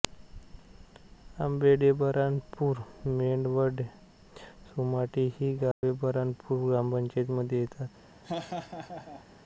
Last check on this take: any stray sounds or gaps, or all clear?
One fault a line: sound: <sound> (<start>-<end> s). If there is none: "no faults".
sound: dropout (5.7-5.8 s)
sound: laugh (8.2-9.3 s)